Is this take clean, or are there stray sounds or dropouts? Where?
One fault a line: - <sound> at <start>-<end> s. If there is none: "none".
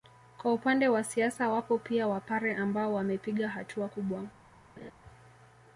- laugh at 4.8-4.9 s